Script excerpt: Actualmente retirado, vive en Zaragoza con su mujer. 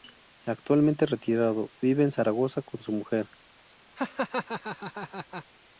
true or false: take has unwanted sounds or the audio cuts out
true